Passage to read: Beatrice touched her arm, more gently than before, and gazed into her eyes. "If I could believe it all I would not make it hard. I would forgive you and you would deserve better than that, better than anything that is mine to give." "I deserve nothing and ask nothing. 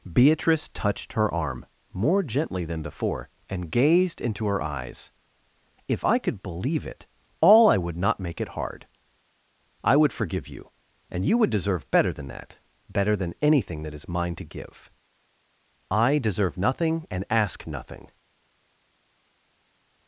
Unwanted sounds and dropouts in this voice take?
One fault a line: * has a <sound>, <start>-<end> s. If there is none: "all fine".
all fine